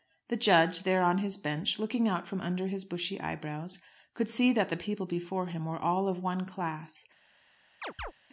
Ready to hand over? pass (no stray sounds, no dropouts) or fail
fail